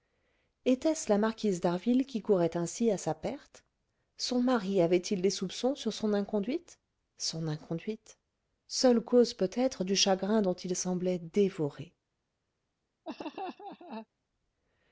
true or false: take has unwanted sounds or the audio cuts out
true